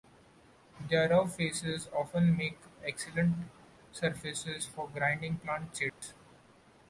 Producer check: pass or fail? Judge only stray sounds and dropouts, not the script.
fail